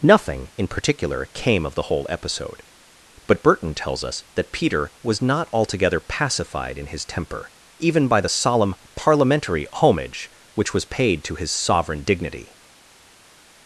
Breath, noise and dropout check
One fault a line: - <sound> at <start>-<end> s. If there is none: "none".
none